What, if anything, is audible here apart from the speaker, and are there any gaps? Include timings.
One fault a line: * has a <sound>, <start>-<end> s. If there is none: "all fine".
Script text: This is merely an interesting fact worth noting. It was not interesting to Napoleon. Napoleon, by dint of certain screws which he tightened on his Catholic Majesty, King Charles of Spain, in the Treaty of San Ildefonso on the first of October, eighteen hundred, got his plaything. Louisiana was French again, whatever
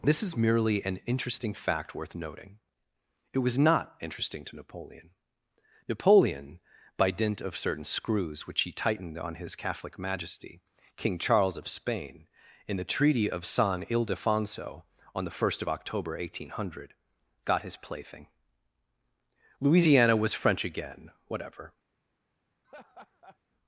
* has a laugh, 22.6-23.4 s